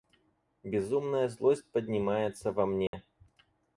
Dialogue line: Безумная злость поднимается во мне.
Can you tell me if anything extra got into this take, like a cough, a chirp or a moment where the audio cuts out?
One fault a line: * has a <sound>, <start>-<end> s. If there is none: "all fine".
* has a dropout, 2.9-2.9 s